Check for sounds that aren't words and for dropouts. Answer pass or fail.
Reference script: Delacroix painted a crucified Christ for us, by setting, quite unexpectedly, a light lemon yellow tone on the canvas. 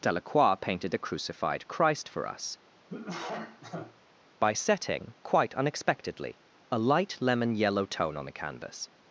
fail